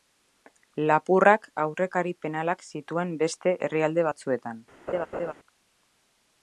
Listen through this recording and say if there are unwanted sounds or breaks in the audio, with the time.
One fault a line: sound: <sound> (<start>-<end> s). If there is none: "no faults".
sound: laugh (4.9-5.3 s)